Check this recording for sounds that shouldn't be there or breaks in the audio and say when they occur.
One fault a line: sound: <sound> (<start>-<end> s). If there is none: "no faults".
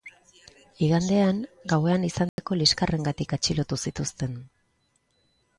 sound: dropout (2.3-2.4 s)